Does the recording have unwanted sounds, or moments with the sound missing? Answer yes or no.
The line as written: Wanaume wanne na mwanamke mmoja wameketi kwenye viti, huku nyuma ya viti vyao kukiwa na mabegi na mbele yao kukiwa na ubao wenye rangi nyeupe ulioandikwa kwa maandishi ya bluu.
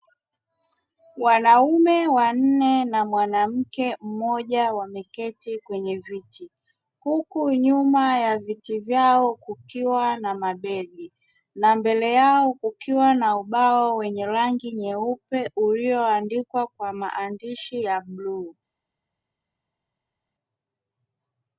no